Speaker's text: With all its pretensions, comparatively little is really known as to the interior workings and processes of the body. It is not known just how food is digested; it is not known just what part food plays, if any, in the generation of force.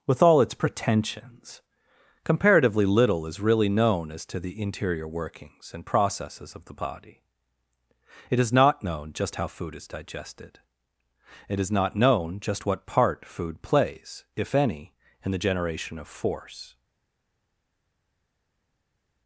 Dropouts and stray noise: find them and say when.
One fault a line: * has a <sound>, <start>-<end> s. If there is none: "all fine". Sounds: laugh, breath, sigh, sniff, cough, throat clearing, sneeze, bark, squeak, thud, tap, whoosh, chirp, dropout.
all fine